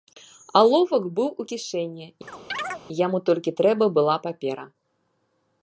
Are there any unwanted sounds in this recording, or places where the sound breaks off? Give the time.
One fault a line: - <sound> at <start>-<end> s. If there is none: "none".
- chirp at 2.3-2.8 s